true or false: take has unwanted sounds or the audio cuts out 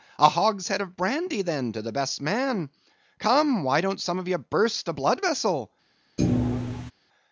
true